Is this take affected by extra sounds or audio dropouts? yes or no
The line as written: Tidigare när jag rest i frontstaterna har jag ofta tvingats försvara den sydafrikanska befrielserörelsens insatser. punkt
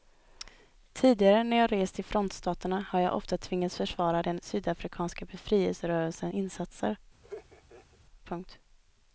yes